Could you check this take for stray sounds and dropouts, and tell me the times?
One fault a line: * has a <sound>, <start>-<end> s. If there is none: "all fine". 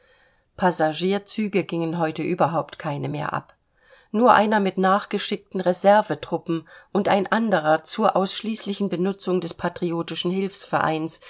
all fine